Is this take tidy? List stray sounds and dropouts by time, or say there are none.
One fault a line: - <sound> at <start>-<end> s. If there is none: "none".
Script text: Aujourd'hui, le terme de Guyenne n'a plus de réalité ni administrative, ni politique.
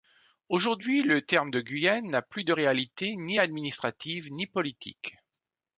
none